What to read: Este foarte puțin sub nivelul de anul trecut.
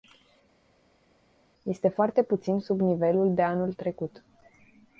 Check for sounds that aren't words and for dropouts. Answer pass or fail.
pass